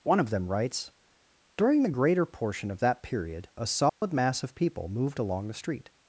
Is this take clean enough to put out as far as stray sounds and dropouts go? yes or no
no